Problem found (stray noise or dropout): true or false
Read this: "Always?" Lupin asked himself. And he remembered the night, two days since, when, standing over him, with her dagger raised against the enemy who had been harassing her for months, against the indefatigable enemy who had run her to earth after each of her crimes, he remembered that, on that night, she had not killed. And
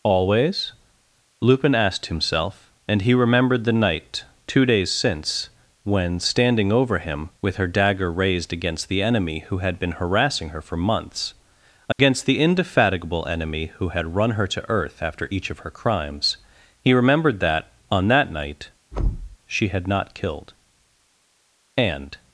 true